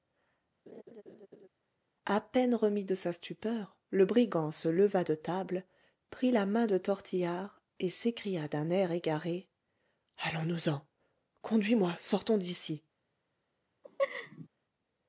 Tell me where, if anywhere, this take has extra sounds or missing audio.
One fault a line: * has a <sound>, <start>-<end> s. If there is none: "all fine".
* has a laugh, 0.7-1.5 s
* has a laugh, 13.8-14.5 s